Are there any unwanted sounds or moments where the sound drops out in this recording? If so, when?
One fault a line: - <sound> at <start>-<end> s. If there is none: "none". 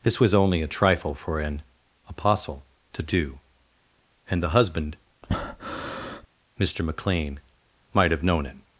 - breath at 5.2-6.3 s